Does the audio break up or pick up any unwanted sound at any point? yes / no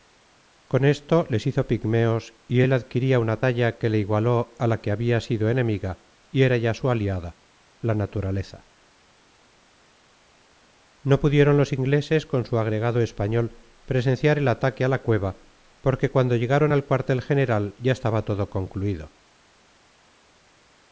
no